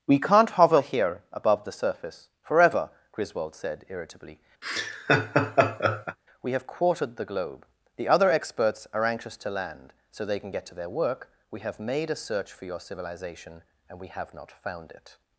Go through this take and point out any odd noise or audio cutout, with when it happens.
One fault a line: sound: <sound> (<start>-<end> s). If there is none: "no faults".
sound: laugh (4.6-6.2 s)